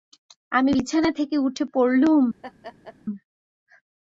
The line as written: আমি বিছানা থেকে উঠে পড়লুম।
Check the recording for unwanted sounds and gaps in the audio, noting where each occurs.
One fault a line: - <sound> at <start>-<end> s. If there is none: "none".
- laugh at 2.4-3.0 s